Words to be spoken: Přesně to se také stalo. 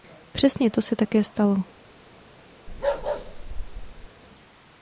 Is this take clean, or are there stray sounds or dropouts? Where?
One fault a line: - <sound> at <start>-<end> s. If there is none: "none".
- bark at 2.7-4.1 s